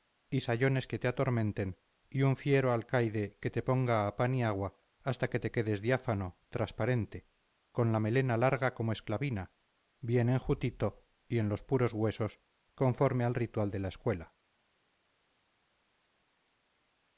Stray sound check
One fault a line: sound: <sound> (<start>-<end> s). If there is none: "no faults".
no faults